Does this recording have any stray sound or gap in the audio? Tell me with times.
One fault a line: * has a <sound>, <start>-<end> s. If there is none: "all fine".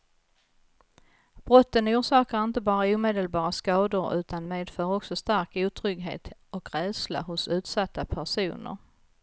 all fine